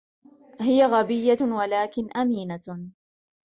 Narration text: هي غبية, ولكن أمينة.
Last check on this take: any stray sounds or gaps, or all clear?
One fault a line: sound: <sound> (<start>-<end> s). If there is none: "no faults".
no faults